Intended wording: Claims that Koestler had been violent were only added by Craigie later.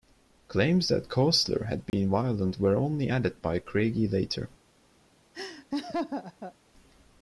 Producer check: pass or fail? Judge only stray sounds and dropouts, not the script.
fail